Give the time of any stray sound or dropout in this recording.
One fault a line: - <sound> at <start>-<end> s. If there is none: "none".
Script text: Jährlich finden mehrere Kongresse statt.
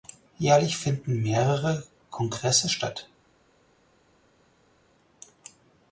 none